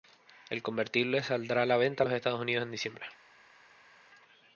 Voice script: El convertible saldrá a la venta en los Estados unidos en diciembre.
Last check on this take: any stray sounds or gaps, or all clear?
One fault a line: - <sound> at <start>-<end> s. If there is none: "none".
none